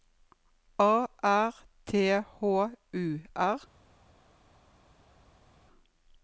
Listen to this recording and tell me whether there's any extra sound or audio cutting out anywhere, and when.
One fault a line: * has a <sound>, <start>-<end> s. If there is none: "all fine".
all fine